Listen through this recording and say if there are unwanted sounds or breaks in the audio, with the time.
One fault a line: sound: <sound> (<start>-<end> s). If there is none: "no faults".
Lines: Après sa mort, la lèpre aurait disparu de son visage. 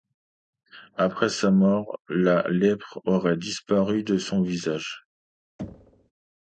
sound: thud (5.6-6.1 s)